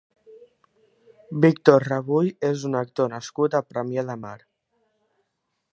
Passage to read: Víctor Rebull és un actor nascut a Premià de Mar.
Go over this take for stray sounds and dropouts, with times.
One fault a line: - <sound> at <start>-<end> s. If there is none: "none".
none